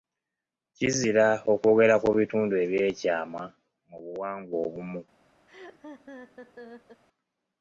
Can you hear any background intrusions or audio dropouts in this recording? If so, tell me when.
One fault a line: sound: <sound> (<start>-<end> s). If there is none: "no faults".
sound: laugh (5.5-7.0 s)